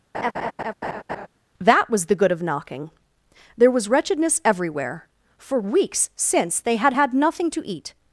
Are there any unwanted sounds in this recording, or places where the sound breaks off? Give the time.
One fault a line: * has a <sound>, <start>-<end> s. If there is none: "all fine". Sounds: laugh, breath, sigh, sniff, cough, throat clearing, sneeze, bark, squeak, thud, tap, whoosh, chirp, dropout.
* has a laugh, 0.1-1.3 s